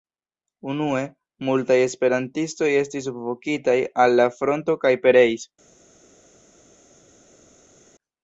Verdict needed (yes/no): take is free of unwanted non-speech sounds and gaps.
yes